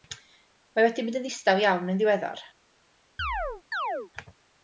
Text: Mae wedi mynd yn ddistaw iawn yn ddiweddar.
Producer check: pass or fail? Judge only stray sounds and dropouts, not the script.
fail